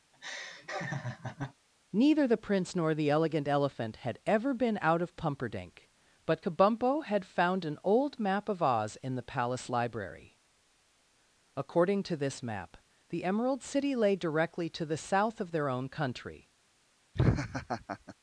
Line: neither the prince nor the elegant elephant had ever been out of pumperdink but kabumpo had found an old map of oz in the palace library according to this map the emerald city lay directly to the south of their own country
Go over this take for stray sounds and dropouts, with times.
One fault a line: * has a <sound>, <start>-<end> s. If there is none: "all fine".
* has a laugh, 0.1-1.5 s
* has a laugh, 17.1-18.1 s